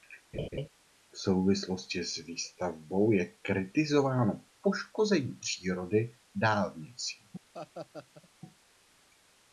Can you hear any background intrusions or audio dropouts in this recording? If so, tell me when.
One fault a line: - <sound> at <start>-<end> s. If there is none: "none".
- laugh at 0.3-0.7 s
- laugh at 7.5-8.3 s